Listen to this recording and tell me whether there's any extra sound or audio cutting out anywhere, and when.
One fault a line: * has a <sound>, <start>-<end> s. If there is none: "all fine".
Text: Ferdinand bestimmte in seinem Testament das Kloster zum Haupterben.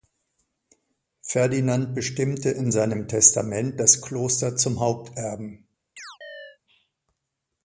* has a chirp, 6.0-6.6 s